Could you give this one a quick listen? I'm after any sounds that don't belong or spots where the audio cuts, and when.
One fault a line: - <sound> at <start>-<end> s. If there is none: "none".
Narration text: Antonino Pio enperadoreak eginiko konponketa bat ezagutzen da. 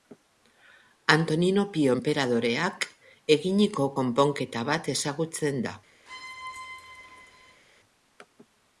- squeak at 6.1-7.6 s